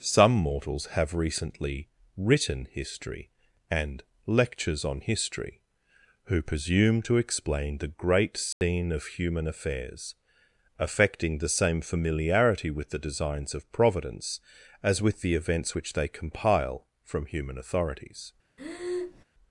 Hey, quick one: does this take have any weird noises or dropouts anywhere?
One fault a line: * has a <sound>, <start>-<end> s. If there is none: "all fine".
* has a dropout, 8.5-8.6 s
* has a breath, 18.6-19.2 s